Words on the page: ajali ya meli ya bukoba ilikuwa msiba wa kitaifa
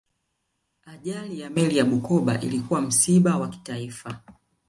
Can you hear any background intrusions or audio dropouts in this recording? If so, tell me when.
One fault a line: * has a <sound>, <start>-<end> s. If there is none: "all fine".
all fine